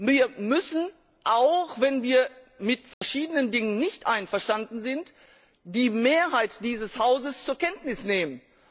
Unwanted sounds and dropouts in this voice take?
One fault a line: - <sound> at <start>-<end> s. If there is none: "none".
- dropout at 2.9-3.0 s